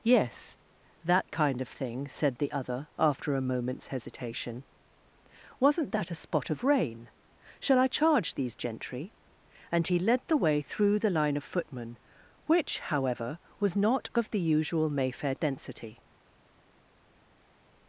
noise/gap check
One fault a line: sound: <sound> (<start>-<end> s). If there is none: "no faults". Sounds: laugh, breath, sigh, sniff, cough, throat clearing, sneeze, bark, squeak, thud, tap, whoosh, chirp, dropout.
no faults